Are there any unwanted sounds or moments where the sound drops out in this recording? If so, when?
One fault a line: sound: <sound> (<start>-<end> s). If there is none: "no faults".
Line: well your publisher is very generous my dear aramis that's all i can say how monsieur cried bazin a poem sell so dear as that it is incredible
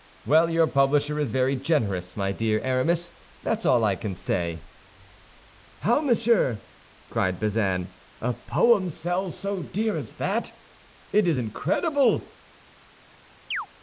sound: chirp (13.5-13.7 s)